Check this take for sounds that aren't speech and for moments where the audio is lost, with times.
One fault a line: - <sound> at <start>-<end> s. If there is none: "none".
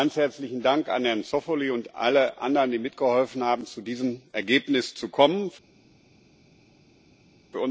none